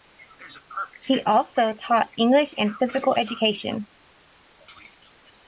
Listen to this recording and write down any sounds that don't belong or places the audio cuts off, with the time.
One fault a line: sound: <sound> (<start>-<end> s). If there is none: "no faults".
no faults